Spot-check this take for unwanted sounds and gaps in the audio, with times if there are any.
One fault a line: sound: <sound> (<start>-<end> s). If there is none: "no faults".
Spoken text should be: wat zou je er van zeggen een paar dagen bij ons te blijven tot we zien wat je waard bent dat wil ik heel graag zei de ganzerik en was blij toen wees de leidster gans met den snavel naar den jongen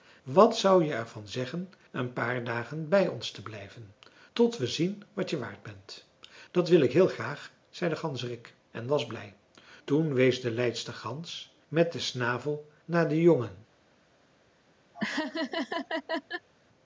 sound: laugh (14.9-16.5 s)